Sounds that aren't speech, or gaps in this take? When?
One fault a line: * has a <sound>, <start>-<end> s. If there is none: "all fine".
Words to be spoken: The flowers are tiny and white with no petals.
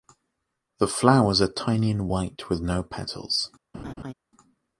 * has a laugh, 3.7-4.1 s